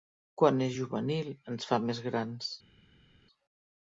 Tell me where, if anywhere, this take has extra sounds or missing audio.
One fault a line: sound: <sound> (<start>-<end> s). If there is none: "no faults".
no faults